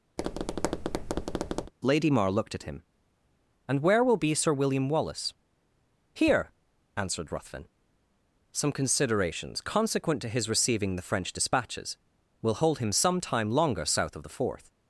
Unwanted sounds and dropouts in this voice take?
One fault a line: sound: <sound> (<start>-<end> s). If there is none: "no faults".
sound: tap (0.2-1.7 s)